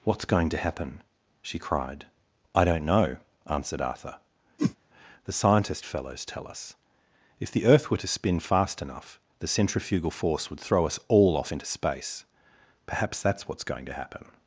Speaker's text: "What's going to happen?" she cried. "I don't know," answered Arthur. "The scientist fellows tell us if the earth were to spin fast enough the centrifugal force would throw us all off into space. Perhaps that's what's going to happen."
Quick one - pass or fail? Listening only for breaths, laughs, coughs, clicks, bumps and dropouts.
fail